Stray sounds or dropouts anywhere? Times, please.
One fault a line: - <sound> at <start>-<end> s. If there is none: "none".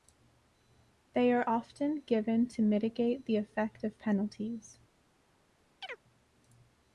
- chirp at 5.8-6.0 s